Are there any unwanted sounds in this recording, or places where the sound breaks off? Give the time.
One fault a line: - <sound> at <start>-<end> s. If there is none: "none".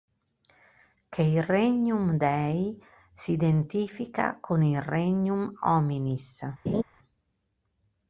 - laugh at 6.7-6.8 s